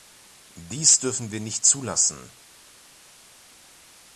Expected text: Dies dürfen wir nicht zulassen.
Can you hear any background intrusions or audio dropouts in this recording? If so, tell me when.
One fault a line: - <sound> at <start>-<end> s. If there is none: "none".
none